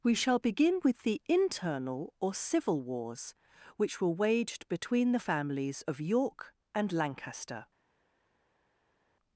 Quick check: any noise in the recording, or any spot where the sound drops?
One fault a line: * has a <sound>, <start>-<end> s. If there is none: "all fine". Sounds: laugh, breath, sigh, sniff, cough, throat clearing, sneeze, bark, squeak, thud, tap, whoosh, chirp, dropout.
all fine